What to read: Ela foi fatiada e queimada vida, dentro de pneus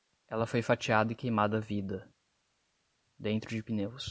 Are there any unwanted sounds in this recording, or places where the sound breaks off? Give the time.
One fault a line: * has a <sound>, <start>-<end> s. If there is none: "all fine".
all fine